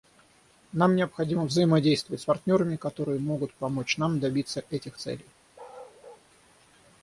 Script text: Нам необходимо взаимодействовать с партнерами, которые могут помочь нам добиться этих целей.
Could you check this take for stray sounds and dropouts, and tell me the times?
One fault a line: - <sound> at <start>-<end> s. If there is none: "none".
- bark at 5.5-6.3 s